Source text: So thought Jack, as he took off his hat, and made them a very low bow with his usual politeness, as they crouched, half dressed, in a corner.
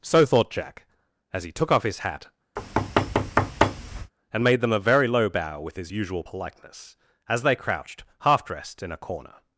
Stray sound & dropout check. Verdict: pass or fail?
fail